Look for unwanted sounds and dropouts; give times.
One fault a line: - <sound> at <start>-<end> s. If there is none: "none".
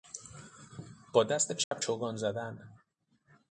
- dropout at 1.6-1.7 s